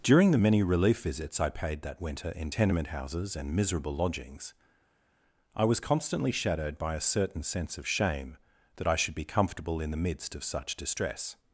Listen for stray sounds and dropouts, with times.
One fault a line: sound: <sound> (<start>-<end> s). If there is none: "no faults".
no faults